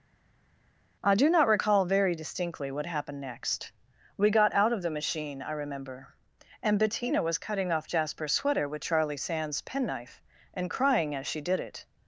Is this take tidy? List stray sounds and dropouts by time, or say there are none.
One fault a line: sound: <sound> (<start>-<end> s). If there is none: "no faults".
no faults